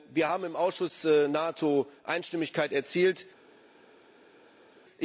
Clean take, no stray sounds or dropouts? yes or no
yes